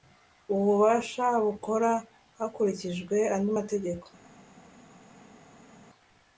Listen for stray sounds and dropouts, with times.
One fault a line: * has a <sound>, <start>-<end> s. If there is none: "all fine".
all fine